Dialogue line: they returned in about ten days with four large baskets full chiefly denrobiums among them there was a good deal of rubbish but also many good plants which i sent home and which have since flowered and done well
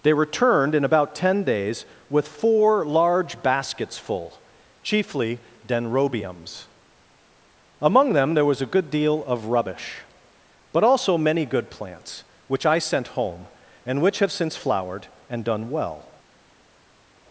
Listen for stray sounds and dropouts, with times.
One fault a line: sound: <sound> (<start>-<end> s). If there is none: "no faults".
no faults